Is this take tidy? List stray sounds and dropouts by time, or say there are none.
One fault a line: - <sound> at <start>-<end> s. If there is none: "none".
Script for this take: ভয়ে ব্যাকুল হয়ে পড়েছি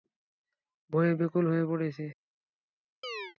- chirp at 3.0-3.4 s